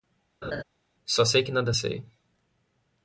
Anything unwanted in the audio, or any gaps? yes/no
yes